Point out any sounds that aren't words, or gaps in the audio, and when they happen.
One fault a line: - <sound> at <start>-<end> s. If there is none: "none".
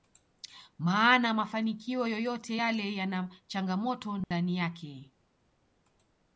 - dropout at 4.2-4.3 s